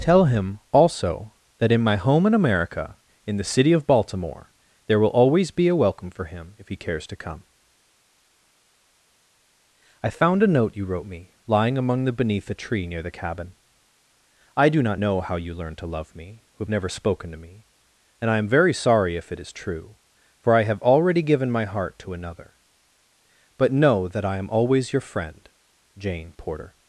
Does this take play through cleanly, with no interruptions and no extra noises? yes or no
yes